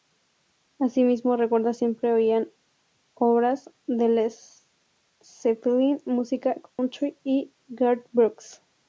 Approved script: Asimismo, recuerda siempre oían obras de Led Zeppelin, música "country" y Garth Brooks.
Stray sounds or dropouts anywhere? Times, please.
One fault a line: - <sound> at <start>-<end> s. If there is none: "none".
- dropout at 6.7-6.8 s